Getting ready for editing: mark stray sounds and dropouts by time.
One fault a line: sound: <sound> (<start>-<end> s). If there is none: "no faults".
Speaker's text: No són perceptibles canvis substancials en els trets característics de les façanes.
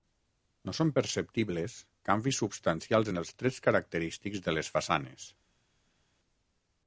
no faults